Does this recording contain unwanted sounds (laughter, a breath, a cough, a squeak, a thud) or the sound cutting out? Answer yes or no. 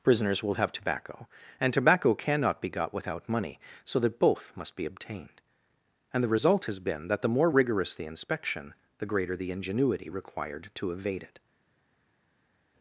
no